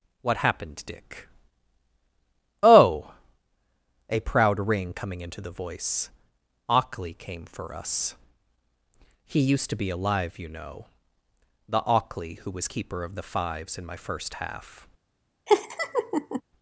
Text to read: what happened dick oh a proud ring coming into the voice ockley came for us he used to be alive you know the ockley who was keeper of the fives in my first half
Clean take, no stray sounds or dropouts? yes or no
no